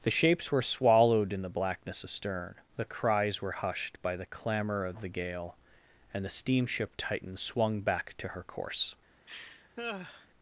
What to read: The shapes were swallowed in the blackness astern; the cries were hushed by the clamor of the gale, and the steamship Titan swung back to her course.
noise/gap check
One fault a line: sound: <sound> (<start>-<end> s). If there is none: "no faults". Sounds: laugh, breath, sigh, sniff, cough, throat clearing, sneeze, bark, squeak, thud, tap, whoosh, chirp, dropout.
sound: laugh (9.3-10.3 s)